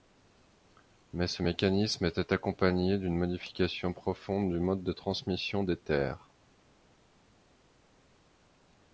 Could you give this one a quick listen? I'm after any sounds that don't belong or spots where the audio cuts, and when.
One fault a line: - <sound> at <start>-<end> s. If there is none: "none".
none